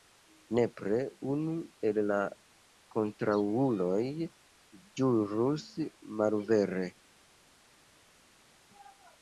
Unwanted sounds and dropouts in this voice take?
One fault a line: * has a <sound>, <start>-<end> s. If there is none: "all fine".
all fine